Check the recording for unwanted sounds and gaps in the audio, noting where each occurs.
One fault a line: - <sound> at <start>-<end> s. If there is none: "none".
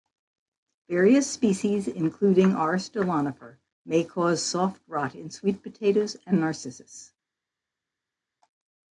none